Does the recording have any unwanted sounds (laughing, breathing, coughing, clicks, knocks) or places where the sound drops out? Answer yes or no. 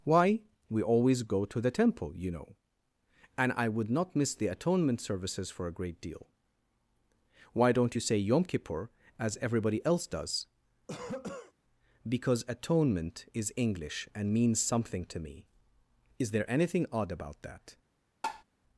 yes